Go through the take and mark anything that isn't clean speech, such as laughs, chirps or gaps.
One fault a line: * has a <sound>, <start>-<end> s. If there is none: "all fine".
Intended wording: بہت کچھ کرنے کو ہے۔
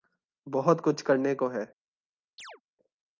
* has a chirp, 2.4-2.6 s